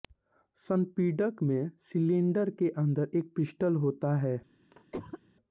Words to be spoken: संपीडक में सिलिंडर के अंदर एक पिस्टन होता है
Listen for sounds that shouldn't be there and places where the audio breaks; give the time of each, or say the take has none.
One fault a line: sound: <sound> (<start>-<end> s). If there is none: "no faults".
sound: cough (4.7-5.2 s)